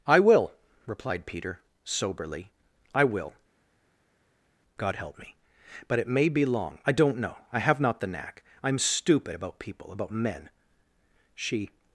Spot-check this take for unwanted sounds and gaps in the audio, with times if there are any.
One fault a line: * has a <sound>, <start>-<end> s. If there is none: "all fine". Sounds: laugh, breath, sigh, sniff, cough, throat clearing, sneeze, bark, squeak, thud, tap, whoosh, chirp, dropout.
all fine